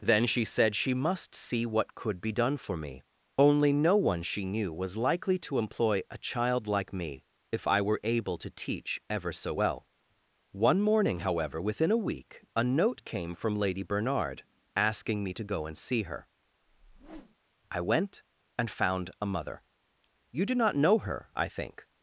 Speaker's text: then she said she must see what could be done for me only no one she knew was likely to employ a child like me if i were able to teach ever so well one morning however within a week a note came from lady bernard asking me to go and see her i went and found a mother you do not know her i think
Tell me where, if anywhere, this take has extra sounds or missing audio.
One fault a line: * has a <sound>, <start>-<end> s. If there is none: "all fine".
* has a whoosh, 16.6-17.4 s